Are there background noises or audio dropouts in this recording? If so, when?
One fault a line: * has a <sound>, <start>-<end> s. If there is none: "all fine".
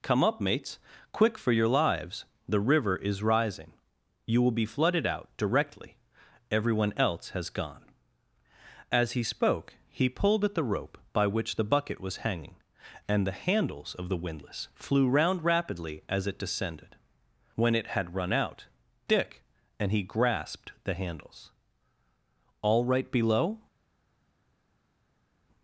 all fine